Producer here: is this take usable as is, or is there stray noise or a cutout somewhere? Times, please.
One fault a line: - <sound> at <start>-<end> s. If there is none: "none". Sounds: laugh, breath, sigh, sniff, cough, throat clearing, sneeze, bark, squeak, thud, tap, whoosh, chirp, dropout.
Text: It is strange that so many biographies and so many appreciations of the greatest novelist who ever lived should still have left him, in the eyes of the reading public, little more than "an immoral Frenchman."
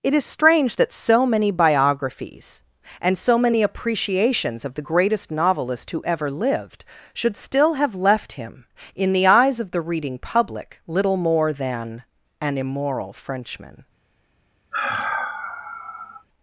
- sigh at 14.7-16.3 s